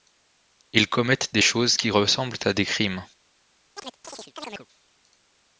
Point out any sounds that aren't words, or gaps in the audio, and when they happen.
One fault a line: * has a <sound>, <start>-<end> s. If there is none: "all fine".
* has a chirp, 3.8-4.7 s